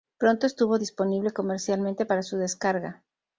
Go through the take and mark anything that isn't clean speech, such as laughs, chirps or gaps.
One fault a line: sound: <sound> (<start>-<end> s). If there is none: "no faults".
no faults